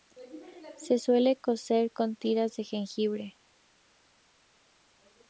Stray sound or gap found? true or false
false